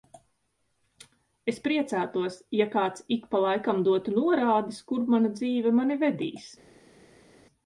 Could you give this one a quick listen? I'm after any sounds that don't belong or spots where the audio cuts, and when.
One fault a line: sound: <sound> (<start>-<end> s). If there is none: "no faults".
no faults